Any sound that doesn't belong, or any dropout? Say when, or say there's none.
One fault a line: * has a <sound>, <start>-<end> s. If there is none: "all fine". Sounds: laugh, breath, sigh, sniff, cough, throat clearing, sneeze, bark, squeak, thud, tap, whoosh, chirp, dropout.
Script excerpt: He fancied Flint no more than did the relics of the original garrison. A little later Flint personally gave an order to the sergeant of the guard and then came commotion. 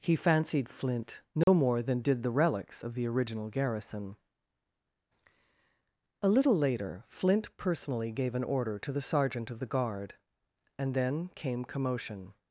* has a dropout, 1.4-1.5 s